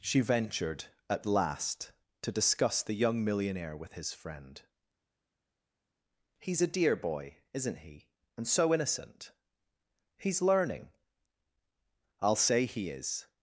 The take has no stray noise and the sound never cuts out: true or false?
true